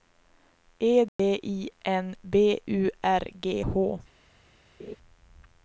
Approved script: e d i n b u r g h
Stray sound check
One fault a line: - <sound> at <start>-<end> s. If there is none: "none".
- dropout at 1.1-1.2 s
- laugh at 4.8-5.0 s